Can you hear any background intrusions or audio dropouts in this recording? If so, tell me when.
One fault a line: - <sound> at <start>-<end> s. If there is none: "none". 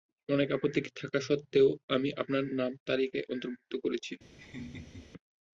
- laugh at 4.4-5.1 s